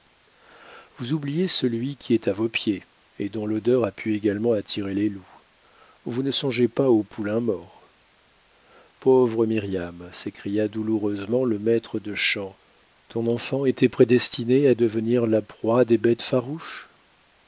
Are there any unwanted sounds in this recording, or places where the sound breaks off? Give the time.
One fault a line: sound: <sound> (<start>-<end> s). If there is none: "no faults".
no faults